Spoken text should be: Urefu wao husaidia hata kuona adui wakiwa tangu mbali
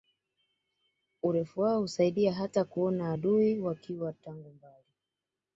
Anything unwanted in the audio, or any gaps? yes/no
no